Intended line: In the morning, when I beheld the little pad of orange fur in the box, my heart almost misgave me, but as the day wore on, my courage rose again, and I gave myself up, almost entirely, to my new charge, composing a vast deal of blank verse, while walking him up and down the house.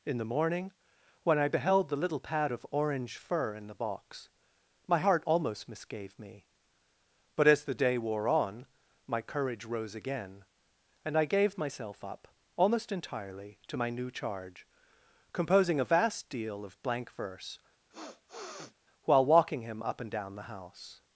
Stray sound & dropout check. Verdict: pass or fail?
fail